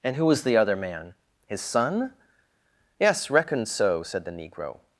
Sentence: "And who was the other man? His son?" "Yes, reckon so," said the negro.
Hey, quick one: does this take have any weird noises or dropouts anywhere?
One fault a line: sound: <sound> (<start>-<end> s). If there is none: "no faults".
no faults